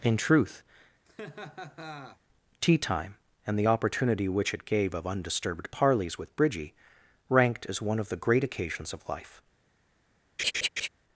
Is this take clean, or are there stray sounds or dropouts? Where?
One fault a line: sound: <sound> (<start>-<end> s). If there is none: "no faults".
sound: laugh (1.1-2.2 s)
sound: laugh (10.4-10.9 s)